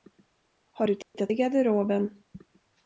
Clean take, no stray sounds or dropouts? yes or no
no